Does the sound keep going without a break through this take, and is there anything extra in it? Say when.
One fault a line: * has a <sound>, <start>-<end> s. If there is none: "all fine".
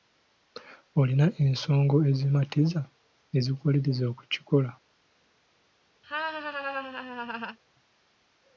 * has a laugh, 6.0-7.6 s